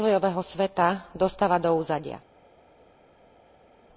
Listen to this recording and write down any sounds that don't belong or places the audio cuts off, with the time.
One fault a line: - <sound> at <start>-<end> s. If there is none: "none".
none